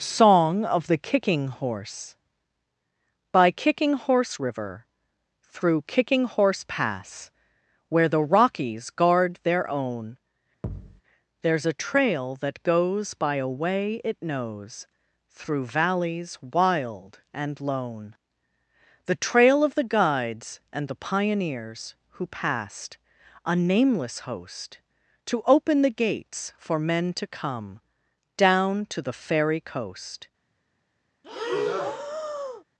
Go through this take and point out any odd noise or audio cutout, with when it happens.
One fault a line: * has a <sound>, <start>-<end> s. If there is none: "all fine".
* has a thud, 10.6-11.0 s
* has a breath, 31.2-32.6 s